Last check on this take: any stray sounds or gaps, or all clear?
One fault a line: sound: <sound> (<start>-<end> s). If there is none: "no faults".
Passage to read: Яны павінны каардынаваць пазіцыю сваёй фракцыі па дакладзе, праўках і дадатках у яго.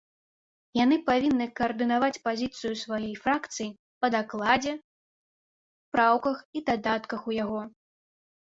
no faults